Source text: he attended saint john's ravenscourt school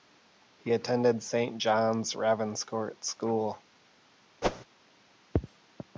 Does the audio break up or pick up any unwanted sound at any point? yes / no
yes